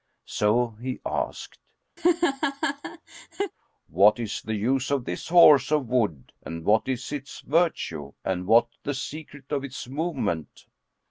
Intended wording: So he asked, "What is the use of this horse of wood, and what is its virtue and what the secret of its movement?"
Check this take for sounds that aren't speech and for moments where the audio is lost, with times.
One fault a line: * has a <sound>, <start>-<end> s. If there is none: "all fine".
* has a laugh, 2.0-3.5 s